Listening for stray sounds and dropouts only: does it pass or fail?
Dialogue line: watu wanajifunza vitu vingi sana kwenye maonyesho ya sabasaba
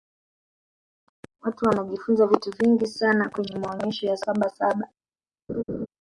fail